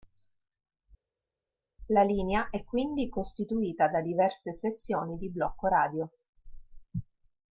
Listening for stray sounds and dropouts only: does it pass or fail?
pass